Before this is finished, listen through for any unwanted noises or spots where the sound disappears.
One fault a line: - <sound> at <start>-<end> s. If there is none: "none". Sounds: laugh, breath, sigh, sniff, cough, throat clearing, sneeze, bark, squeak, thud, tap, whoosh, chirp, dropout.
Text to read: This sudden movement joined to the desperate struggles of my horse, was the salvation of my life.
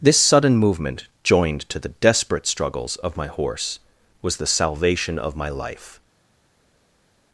none